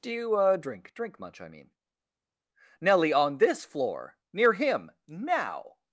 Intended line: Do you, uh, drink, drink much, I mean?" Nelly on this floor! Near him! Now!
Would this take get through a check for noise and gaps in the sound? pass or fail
pass